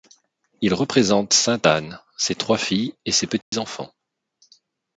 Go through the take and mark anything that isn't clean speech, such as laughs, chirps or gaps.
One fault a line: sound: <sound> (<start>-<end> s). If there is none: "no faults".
sound: dropout (3.4-3.5 s)